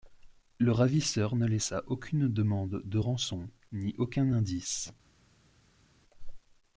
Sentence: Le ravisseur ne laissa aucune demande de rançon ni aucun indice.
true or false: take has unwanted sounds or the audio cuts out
false